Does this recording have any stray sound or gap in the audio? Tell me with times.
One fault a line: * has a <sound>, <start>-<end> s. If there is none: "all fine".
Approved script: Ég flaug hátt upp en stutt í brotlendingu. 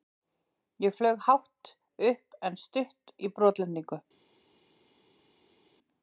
all fine